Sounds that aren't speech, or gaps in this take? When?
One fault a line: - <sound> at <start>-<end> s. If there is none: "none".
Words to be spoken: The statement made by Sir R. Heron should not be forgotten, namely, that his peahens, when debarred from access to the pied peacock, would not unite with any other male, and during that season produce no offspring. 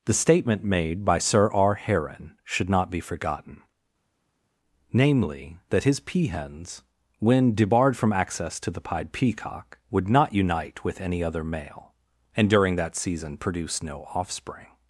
none